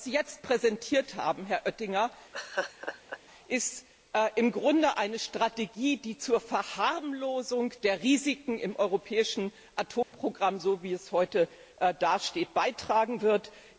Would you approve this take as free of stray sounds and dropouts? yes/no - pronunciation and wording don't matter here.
no